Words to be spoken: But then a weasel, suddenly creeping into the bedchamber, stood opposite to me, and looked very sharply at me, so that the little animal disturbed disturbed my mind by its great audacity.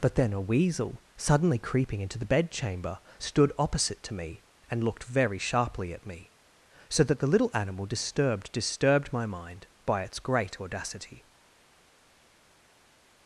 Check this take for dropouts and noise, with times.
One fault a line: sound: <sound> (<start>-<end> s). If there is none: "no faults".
no faults